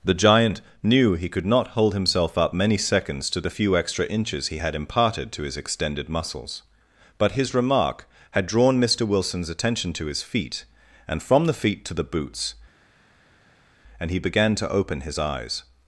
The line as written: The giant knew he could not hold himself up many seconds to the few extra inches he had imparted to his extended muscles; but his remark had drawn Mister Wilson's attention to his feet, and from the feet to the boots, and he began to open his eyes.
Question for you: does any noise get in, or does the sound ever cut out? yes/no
no